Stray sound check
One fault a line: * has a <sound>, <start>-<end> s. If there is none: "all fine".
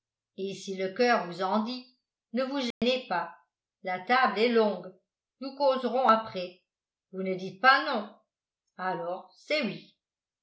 * has a dropout, 2.7-2.8 s